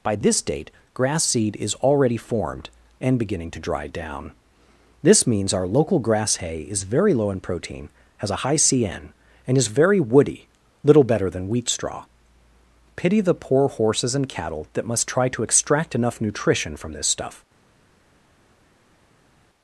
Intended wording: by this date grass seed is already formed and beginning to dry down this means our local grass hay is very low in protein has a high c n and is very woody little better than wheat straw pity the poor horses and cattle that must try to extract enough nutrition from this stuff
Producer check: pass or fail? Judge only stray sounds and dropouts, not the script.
pass